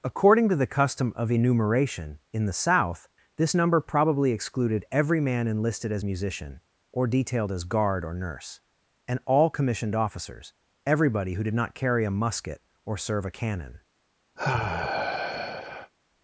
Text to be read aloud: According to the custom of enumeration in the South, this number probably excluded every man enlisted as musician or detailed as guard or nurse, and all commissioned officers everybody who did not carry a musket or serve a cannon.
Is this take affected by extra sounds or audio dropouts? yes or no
yes